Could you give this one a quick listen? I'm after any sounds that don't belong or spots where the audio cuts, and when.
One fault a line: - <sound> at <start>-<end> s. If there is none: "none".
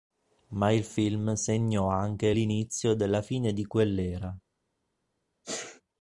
- sneeze at 5.4-5.8 s